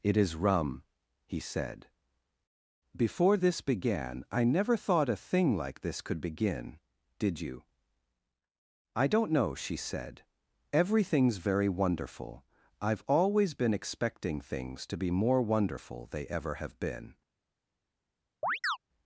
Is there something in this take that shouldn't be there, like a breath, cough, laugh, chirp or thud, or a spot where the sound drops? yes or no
yes